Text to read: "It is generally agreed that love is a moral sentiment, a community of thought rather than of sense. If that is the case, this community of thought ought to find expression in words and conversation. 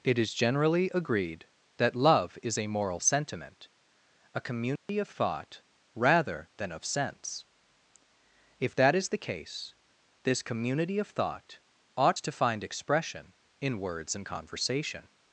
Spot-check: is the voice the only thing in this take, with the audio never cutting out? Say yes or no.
no